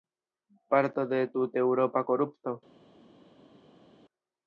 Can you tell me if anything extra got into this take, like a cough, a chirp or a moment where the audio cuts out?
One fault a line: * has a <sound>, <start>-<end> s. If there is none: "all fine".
all fine